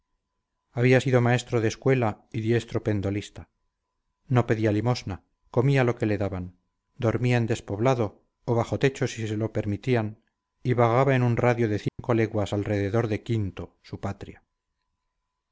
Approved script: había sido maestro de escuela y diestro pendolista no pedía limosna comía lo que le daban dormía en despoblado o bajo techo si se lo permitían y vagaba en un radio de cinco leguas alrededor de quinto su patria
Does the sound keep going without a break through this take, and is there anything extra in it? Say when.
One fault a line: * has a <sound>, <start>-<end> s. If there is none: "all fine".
* has a dropout, 11.9-12.0 s